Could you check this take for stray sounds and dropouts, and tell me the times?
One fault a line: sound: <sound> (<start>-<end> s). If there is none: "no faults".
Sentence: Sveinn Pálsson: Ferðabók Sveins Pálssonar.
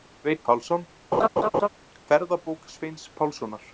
sound: laugh (1.1-1.7 s)